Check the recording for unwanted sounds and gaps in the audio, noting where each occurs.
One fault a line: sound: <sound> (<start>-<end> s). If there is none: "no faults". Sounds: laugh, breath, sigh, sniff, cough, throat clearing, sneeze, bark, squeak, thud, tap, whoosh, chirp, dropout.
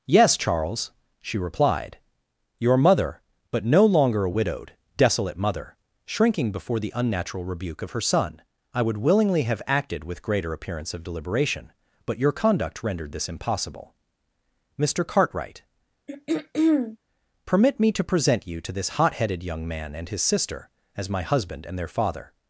sound: throat clearing (16.1-17.0 s)